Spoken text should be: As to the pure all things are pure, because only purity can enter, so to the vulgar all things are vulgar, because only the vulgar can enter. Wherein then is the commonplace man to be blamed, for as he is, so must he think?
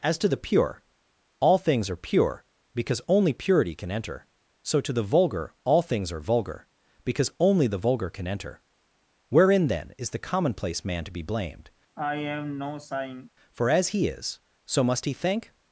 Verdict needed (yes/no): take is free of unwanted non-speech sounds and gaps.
no